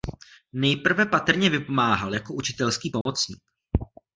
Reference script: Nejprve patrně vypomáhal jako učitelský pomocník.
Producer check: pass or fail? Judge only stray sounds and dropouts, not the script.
fail